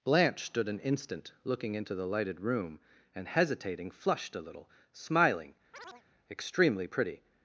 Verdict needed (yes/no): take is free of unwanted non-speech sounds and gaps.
no